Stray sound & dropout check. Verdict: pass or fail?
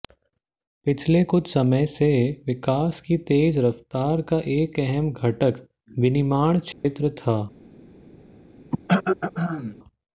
fail